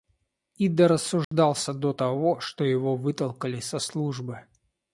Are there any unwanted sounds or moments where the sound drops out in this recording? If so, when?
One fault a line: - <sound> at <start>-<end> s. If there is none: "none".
- dropout at 1.2-1.3 s